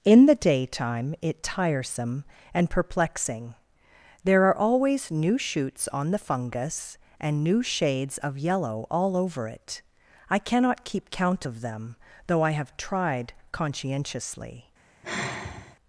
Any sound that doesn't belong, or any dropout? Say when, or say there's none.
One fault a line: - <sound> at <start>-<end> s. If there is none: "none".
- sigh at 15.0-15.8 s